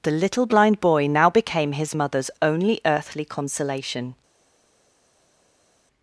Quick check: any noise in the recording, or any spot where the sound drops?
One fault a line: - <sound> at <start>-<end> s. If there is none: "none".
none